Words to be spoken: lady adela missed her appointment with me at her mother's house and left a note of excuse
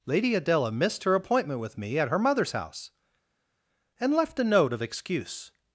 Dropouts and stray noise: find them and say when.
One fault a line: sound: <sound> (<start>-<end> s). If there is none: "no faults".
no faults